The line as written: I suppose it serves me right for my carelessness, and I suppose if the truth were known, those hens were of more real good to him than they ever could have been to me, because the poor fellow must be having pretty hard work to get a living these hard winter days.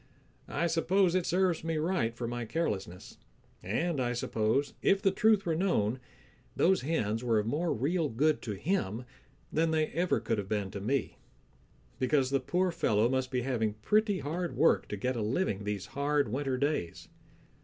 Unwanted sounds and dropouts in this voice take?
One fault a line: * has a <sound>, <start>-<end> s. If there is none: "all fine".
all fine